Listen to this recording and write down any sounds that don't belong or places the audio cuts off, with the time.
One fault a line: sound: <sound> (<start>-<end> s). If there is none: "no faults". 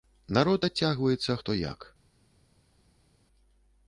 no faults